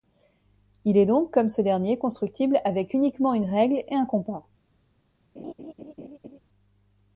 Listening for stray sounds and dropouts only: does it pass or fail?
fail